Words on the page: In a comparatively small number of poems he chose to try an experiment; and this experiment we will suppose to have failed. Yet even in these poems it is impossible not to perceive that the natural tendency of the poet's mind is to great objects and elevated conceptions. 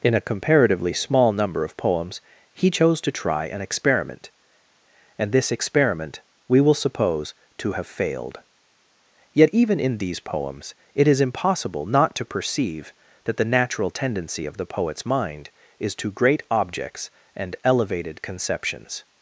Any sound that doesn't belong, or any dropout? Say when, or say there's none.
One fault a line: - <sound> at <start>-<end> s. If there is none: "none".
none